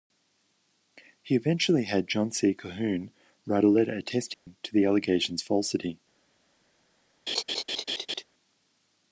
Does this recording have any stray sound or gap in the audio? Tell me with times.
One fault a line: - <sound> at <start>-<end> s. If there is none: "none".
- dropout at 4.3-4.5 s
- laugh at 7.3-8.2 s